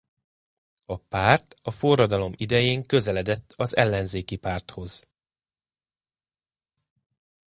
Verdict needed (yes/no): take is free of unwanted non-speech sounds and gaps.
yes